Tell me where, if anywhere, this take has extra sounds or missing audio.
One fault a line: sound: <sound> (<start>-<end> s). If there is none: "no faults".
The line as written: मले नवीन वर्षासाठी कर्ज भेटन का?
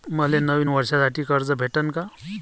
no faults